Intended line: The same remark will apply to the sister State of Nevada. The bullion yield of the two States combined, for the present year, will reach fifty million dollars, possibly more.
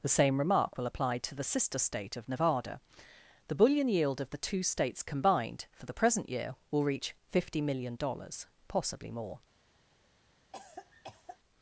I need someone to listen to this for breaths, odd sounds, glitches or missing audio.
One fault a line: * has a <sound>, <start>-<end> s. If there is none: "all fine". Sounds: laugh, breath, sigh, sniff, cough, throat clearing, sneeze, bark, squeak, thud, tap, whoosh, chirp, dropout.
* has a cough, 10.5-11.4 s